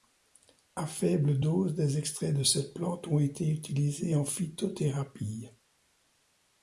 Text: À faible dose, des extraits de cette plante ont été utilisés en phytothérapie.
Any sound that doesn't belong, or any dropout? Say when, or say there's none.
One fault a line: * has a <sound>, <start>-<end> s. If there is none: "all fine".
all fine